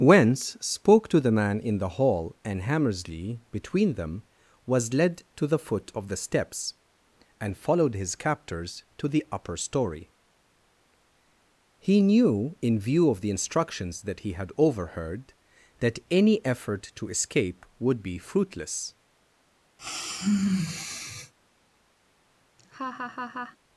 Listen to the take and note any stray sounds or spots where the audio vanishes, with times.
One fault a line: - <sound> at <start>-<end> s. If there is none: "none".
- sigh at 19.8-21.3 s
- laugh at 22.6-23.6 s